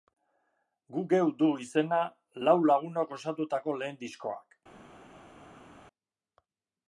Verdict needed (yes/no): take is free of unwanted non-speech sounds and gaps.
yes